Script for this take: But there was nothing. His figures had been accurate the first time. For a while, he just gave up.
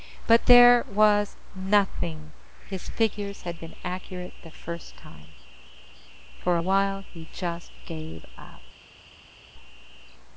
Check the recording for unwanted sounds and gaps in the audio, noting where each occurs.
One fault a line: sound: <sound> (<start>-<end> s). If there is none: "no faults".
no faults